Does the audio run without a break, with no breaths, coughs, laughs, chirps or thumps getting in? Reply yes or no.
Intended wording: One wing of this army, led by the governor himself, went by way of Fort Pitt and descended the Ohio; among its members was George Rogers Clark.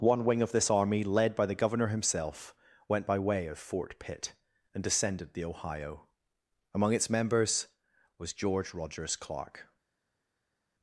yes